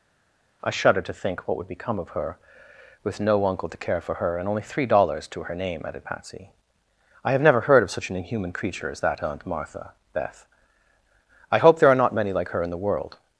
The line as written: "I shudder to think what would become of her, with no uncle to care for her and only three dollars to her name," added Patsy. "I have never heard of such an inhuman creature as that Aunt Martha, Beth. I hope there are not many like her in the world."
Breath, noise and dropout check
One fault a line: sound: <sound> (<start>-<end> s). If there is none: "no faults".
no faults